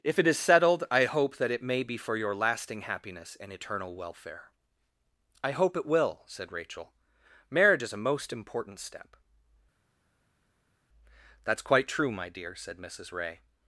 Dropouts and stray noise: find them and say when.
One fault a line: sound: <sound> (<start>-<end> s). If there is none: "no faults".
no faults